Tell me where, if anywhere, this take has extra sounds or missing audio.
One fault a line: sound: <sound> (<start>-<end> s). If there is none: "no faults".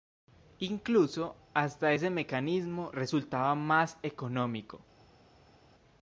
no faults